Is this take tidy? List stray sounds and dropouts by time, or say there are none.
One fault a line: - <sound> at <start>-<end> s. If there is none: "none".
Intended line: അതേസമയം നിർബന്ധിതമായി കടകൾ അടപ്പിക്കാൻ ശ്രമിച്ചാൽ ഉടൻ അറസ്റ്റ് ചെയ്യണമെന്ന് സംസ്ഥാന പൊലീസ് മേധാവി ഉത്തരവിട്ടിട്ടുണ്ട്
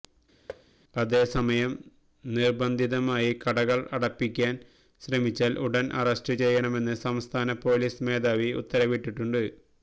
- thud at 0.5-0.7 s